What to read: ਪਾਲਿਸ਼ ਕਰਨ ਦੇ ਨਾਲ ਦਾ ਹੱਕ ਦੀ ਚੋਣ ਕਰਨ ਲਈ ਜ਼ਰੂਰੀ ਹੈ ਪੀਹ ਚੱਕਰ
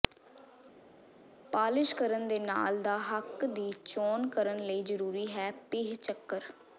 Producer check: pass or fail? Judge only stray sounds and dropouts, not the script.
pass